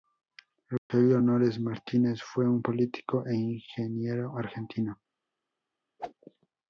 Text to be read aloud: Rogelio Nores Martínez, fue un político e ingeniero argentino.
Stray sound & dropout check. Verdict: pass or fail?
fail